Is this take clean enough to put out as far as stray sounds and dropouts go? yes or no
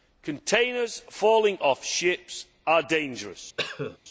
no